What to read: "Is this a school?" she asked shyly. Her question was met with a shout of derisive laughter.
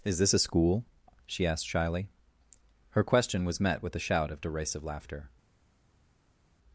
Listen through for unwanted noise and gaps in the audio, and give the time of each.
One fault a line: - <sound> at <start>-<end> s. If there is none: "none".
none